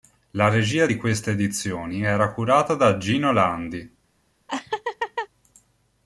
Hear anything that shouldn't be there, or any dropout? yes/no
yes